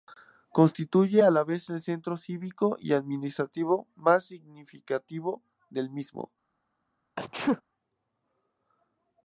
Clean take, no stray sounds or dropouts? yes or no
no